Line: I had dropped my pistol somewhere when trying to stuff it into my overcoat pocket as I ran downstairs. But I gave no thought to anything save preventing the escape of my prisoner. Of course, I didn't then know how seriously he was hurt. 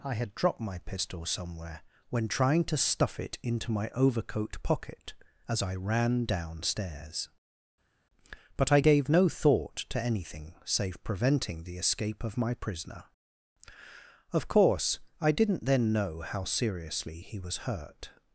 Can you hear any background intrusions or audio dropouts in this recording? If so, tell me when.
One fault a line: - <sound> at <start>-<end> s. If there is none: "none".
none